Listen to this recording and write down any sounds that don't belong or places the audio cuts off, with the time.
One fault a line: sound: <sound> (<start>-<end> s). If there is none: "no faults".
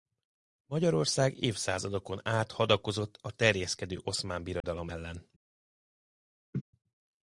sound: dropout (4.6-4.6 s)
sound: laugh (6.5-6.6 s)